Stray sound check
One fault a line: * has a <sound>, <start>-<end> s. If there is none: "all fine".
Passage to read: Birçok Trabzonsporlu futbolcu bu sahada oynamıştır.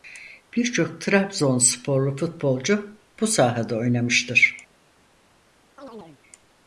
* has a chirp, 5.8-6.2 s